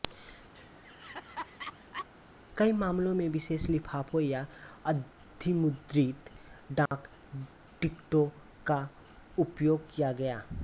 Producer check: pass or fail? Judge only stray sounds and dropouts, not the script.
fail